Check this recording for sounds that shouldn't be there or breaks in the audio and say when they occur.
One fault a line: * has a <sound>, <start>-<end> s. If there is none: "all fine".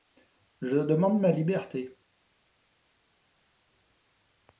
all fine